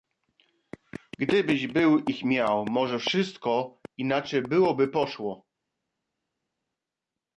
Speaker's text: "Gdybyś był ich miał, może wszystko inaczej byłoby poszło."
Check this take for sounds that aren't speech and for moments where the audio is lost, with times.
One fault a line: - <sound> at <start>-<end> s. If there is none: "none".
none